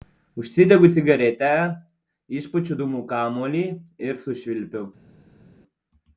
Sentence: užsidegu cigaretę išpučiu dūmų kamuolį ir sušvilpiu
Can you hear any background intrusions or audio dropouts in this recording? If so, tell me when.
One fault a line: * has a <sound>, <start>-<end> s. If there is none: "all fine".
all fine